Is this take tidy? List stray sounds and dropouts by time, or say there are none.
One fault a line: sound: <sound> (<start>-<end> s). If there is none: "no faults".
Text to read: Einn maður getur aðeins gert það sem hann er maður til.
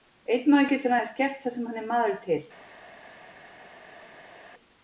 no faults